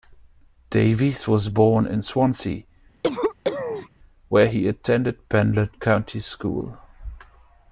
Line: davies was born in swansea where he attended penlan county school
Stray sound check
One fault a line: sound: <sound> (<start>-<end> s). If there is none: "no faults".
sound: cough (3.0-3.9 s)